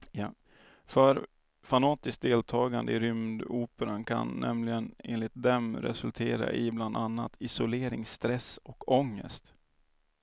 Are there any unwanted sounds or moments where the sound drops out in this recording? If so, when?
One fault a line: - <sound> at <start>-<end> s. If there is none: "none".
none